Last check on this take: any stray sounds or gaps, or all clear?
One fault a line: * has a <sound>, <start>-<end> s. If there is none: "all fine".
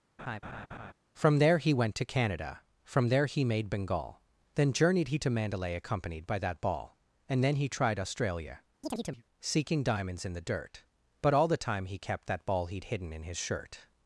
* has a laugh, 0.2-0.9 s
* has a chirp, 8.8-9.2 s